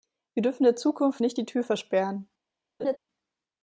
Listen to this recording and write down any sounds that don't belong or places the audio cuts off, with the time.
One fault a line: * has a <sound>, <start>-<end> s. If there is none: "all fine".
* has a laugh, 2.8-3.0 s